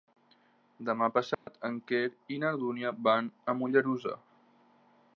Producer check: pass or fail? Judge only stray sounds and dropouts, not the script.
fail